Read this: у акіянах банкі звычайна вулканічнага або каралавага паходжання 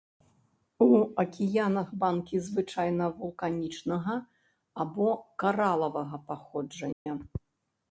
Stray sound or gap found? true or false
true